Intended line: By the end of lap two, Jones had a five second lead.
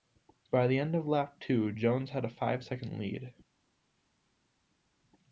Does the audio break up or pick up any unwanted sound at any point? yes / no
no